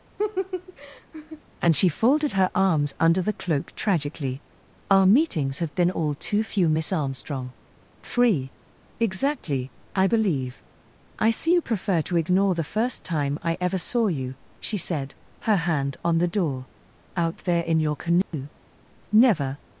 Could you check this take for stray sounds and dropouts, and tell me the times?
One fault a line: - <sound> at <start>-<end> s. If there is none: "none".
- laugh at 0.2-1.4 s
- dropout at 18.2-18.3 s